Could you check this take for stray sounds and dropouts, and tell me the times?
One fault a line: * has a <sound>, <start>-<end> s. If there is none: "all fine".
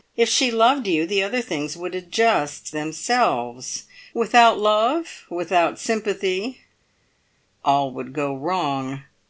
all fine